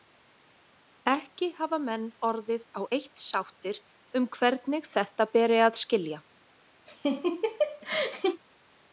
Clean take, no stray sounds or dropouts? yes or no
no